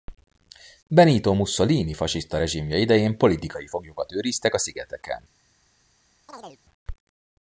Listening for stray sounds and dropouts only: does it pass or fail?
fail